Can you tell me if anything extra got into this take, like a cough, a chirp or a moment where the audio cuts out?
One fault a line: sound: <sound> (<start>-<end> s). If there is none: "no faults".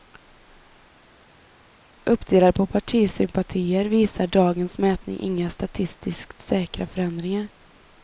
no faults